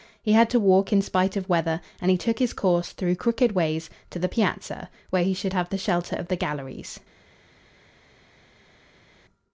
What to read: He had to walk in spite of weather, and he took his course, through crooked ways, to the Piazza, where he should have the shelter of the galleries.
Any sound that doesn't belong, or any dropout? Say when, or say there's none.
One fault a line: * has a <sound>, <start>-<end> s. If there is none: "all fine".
all fine